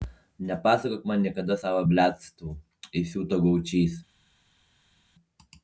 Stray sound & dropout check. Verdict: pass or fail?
pass